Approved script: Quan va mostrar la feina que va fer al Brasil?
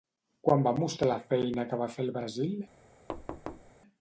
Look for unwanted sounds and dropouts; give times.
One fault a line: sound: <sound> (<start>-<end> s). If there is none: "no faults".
sound: thud (3.1-3.7 s)